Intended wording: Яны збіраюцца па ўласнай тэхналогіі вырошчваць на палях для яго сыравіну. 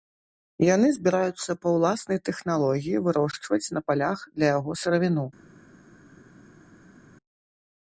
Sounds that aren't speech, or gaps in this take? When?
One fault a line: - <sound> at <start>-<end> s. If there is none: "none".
none